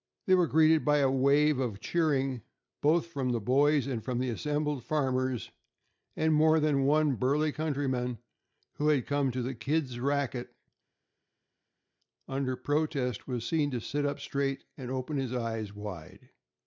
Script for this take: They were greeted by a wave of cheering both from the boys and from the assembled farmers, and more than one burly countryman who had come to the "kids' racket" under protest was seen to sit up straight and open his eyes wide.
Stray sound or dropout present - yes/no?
no